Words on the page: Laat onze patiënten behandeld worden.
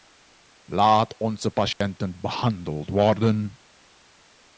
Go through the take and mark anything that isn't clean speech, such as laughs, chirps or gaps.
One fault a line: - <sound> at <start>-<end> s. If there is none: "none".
- dropout at 1.7-1.8 s